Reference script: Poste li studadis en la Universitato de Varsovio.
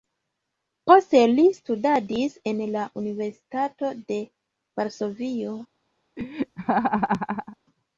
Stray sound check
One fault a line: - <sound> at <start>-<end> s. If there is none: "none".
- laugh at 6.2-7.6 s